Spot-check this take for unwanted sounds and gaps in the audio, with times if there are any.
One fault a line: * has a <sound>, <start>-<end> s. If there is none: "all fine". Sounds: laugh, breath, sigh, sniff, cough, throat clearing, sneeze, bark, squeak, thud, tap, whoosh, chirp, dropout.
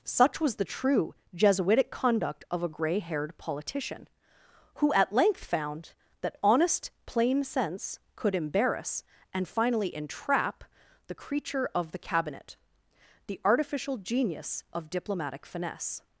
all fine